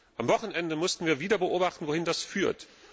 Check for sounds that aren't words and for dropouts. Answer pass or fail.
pass